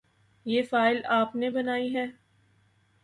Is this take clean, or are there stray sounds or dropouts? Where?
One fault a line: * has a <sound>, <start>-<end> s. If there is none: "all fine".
all fine